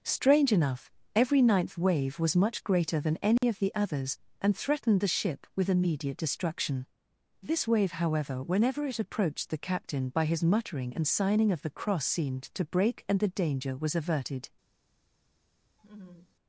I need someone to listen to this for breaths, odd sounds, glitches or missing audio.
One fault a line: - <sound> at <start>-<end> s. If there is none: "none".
- dropout at 3.4-3.4 s
- laugh at 15.8-16.4 s